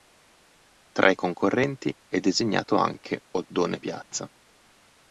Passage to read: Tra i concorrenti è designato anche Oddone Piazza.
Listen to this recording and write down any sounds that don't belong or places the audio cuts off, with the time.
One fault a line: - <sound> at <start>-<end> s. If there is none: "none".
none